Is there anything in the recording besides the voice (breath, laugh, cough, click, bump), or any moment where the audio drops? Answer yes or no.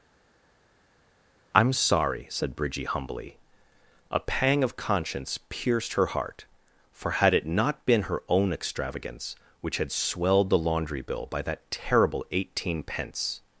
no